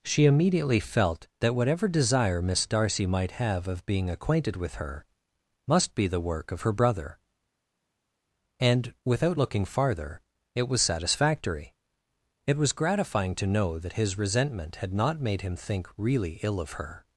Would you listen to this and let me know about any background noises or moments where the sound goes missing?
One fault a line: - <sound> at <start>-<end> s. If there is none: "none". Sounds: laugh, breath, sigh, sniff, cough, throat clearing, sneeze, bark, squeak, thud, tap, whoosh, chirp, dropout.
none